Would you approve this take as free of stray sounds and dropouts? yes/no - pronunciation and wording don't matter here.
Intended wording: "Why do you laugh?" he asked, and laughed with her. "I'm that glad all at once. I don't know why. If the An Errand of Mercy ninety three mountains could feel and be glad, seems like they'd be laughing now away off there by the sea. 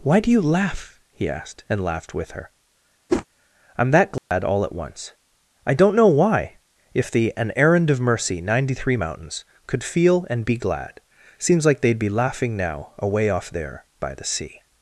no